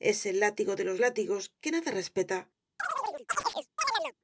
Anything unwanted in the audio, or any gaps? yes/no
yes